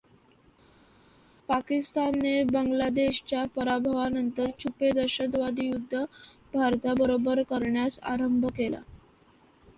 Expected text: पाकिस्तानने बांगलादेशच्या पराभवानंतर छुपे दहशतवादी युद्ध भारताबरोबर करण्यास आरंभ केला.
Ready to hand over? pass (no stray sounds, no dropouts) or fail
pass